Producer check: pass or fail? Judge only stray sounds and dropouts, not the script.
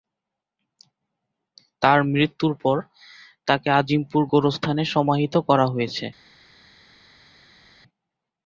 pass